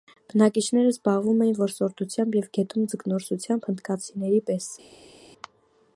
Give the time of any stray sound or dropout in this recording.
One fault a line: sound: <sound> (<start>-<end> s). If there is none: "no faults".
no faults